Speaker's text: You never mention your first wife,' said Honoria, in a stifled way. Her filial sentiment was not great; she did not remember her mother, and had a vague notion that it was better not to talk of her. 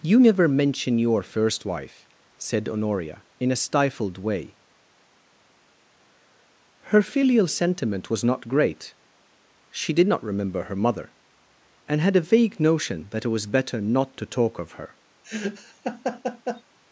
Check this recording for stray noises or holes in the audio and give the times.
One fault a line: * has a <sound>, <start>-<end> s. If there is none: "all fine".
* has a laugh, 15.2-16.6 s